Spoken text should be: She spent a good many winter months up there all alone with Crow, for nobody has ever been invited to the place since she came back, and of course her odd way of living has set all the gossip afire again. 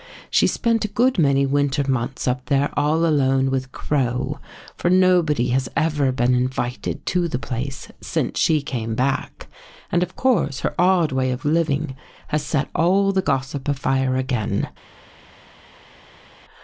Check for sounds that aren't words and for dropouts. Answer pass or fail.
pass